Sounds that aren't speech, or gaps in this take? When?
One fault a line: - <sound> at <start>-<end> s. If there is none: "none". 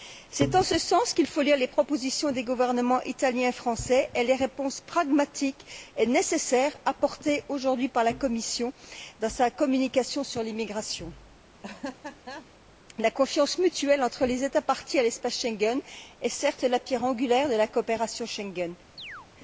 - laugh at 11.6-12.5 s
- chirp at 19.0-19.3 s